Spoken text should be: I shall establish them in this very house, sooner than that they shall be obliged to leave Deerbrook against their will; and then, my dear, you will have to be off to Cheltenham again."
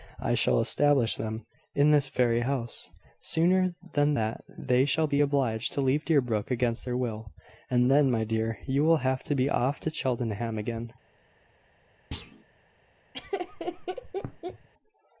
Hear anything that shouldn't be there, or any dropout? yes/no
yes